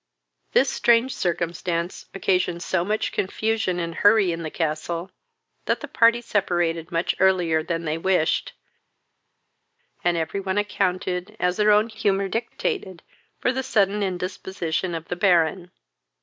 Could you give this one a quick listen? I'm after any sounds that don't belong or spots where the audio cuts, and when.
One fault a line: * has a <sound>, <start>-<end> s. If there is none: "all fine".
all fine